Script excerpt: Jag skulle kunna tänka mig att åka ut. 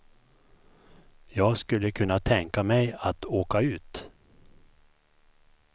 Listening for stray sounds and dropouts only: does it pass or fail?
pass